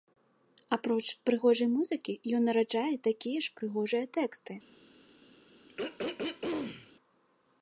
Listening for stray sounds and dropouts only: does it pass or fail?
fail